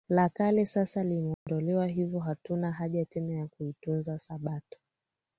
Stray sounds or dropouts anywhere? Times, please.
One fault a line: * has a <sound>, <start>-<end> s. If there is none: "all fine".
* has a dropout, 1.3-1.5 s